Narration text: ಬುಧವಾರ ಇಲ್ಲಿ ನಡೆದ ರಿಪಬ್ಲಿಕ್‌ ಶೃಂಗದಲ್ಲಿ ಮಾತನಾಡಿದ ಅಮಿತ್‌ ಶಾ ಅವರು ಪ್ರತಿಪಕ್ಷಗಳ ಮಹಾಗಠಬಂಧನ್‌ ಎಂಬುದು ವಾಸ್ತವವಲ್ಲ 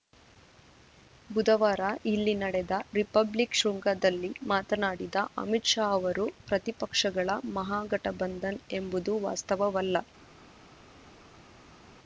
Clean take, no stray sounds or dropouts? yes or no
yes